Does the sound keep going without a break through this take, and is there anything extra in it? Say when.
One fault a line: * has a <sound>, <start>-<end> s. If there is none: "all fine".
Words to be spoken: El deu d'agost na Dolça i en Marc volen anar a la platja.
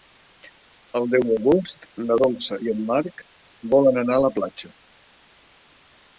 all fine